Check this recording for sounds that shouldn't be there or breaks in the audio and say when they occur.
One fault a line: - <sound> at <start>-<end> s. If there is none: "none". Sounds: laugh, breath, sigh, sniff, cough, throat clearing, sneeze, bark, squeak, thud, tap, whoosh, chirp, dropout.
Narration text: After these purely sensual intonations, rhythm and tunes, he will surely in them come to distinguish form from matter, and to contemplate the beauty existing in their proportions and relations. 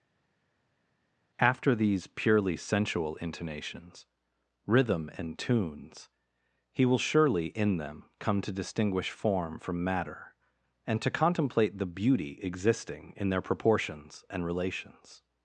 none